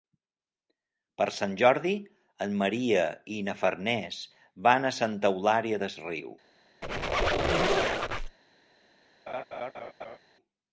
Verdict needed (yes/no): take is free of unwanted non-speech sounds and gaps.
no